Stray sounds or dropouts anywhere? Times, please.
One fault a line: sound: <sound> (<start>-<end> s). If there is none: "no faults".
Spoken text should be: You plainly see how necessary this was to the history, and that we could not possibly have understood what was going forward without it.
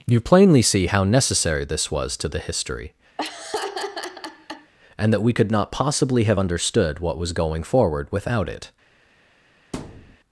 sound: laugh (3.2-4.7 s)
sound: thud (9.7-10.2 s)